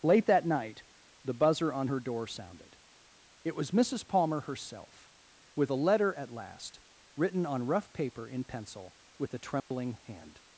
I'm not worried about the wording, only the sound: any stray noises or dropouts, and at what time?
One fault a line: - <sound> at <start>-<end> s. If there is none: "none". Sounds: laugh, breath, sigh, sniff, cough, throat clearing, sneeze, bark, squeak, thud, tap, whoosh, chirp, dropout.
- dropout at 9.6-9.7 s